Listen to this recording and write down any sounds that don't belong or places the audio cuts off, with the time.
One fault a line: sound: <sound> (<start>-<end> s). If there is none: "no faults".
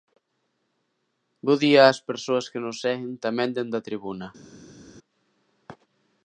no faults